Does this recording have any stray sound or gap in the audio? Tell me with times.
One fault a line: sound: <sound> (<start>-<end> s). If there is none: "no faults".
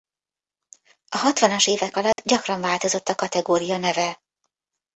sound: dropout (2.1-2.2 s)